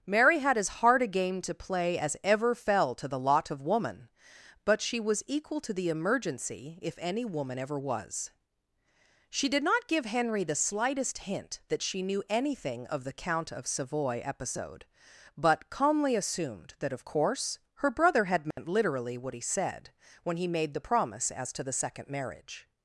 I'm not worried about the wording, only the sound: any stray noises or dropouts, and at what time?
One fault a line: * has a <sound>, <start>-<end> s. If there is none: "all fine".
* has a dropout, 18.5-18.6 s